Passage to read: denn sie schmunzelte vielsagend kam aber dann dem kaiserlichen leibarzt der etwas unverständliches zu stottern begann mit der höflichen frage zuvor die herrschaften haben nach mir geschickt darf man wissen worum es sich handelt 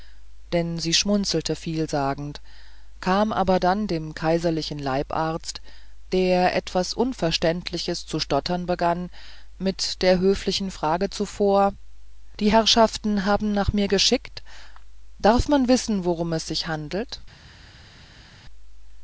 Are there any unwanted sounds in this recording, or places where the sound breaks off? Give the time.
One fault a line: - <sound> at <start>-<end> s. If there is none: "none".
none